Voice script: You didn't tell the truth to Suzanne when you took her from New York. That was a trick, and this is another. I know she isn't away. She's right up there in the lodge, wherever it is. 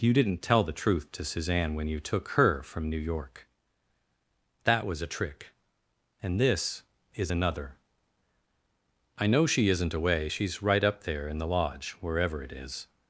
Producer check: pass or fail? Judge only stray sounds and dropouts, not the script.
pass